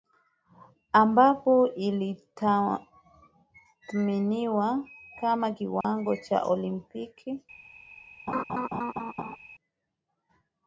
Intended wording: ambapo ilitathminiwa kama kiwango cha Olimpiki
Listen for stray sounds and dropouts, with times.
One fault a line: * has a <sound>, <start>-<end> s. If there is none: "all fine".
* has a dropout, 5.8-5.8 s
* has a laugh, 8.3-9.4 s